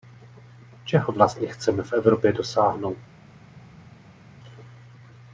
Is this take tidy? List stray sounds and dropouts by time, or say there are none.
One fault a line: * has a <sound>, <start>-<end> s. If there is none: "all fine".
all fine